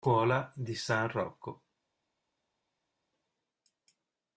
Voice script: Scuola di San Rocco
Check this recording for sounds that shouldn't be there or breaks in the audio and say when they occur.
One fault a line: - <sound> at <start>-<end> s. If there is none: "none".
none